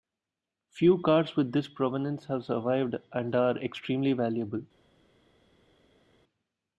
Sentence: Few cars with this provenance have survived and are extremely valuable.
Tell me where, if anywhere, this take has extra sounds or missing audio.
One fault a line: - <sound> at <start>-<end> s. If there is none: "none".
none